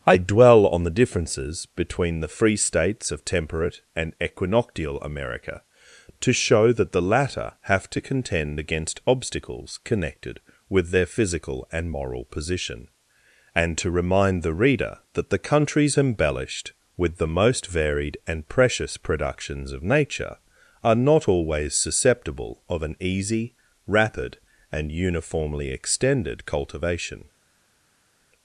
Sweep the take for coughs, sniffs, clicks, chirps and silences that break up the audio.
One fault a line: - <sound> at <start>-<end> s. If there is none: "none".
none